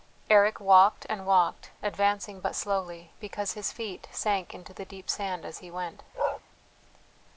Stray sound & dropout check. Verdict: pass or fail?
fail